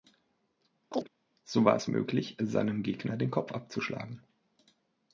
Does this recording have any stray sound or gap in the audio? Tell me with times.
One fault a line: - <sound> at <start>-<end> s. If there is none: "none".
- chirp at 0.9-1.1 s